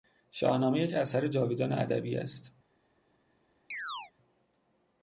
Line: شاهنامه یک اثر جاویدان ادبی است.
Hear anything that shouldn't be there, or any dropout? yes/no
yes